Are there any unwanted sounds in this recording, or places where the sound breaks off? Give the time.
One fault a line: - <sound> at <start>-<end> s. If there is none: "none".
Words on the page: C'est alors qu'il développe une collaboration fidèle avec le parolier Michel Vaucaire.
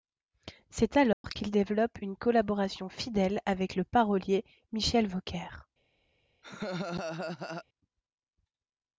- dropout at 1.1-1.2 s
- laugh at 6.4-7.6 s